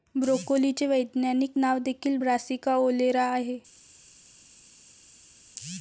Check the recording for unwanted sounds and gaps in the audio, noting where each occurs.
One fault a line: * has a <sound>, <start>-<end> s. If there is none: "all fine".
all fine